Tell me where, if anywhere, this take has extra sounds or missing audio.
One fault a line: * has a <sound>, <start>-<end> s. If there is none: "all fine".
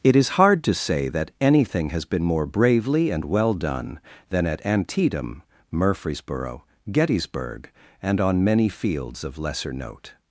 all fine